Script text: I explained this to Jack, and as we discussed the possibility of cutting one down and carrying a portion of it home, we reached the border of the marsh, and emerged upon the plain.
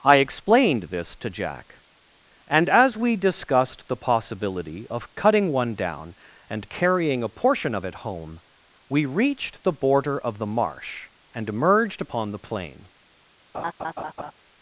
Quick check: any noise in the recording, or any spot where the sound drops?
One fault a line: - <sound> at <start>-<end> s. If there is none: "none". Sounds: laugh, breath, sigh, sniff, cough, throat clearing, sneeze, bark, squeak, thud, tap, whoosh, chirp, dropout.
- laugh at 13.5-14.3 s